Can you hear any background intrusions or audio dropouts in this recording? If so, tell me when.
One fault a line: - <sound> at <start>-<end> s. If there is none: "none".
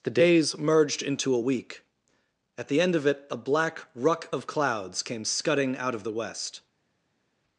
none